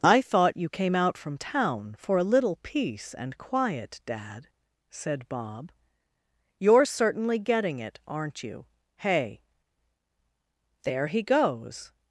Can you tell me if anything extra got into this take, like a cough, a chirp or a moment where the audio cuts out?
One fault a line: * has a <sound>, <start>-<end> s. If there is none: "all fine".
all fine